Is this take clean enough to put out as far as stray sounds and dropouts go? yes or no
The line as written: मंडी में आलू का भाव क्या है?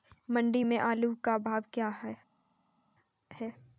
yes